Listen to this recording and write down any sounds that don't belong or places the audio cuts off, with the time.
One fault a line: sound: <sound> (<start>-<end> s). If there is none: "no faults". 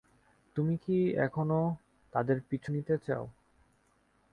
no faults